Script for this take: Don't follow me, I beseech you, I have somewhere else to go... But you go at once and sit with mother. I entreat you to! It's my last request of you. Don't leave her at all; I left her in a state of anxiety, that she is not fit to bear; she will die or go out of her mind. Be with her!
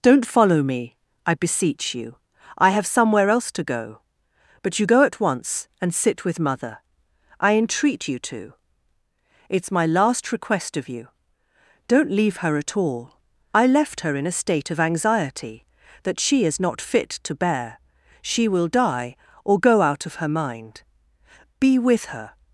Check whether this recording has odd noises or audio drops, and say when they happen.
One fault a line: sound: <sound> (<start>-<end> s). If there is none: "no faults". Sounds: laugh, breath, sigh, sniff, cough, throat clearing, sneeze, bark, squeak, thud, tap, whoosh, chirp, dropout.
no faults